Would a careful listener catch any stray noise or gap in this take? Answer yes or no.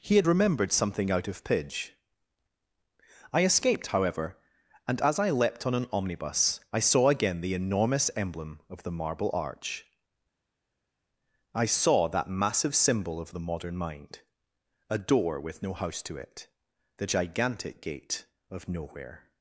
no